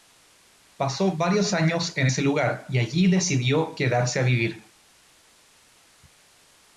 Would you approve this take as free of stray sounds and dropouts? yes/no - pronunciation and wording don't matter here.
yes